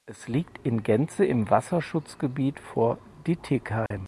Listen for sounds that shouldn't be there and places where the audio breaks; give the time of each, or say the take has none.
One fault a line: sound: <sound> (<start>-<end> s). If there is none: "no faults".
sound: dropout (3.9-3.9 s)